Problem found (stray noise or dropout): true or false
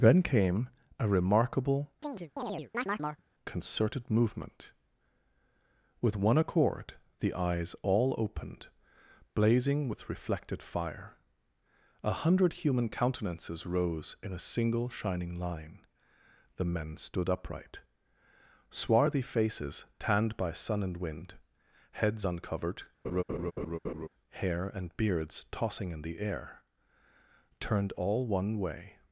true